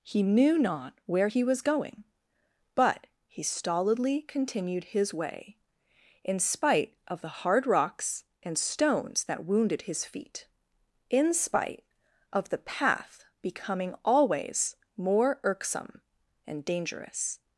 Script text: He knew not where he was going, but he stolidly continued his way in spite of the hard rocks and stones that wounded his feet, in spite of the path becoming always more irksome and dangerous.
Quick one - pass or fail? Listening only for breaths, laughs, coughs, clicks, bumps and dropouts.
pass